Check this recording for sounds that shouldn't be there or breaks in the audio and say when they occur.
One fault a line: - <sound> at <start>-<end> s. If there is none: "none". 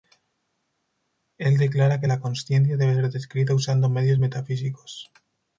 none